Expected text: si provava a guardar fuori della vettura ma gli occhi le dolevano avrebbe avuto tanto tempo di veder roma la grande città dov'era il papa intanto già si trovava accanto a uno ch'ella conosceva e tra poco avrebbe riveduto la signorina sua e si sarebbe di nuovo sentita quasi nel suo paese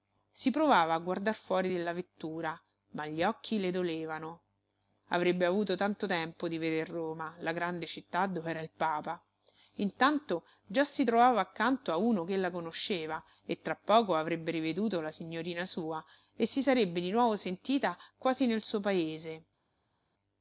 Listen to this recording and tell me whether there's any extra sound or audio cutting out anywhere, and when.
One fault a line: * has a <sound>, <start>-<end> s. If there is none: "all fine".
all fine